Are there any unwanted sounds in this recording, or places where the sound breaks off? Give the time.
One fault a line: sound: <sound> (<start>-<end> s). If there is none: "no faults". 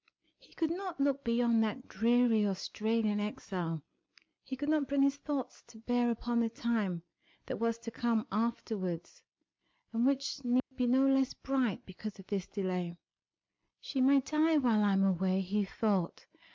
sound: dropout (10.6-10.7 s)